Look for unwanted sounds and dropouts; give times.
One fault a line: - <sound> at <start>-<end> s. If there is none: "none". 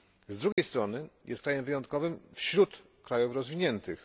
- dropout at 0.5-0.6 s